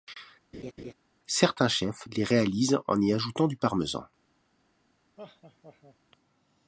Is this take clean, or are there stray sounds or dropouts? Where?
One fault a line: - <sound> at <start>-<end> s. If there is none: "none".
- laugh at 0.5-0.9 s
- laugh at 5.2-6.0 s